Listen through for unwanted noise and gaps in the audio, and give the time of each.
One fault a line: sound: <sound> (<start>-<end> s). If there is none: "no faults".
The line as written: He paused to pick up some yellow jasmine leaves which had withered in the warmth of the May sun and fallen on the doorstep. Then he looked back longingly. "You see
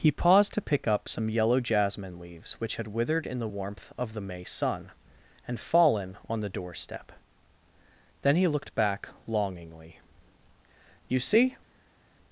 no faults